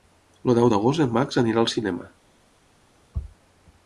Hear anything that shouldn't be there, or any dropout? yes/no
no